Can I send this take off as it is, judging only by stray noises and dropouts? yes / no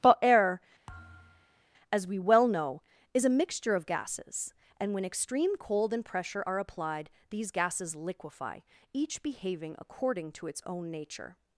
no